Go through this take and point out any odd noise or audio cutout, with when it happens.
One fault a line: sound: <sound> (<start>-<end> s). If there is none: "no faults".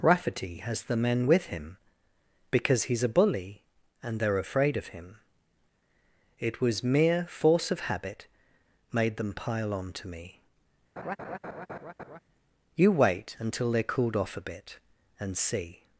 sound: laugh (11.0-12.2 s)